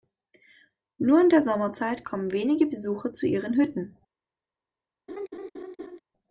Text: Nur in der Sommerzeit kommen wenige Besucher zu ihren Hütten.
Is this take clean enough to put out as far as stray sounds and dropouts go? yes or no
no